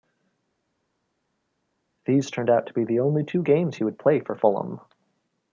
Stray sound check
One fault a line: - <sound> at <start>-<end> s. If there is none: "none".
none